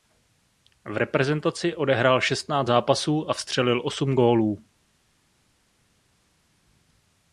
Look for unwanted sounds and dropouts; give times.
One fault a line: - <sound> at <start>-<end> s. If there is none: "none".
none